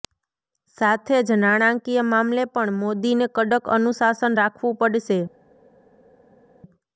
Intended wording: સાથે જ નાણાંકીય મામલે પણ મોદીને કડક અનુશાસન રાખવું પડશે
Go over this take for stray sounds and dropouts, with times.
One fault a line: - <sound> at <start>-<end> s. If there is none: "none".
none